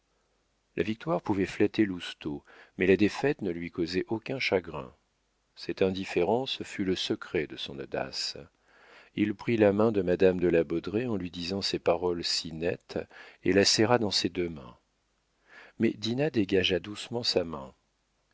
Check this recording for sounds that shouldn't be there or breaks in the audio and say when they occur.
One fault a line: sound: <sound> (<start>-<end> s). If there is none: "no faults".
no faults